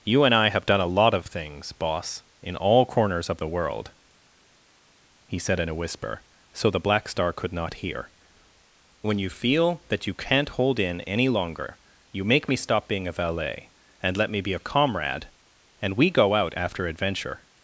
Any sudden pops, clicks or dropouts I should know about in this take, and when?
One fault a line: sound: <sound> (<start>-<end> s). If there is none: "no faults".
no faults